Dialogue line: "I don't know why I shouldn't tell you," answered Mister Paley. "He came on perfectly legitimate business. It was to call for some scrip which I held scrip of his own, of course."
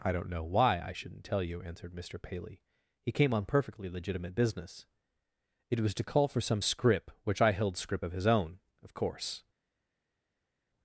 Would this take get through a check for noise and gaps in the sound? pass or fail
pass